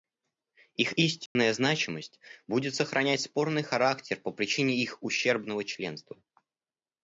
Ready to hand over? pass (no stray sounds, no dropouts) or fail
fail